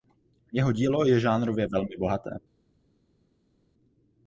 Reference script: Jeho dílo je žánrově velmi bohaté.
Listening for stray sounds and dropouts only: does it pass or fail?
pass